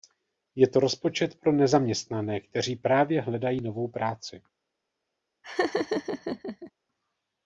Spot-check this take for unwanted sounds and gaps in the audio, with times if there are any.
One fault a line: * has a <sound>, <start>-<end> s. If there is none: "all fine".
* has a laugh, 5.4-6.7 s